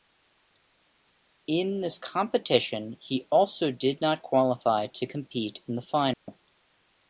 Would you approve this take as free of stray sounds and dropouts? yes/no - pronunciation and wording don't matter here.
no